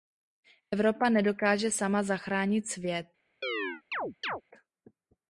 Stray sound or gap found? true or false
true